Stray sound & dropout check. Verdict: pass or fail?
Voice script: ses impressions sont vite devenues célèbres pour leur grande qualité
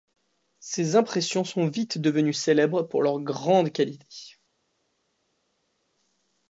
pass